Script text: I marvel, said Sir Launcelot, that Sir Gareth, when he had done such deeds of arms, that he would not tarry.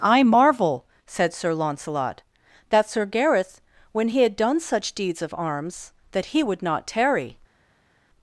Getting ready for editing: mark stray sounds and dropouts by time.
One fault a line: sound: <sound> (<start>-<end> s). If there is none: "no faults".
no faults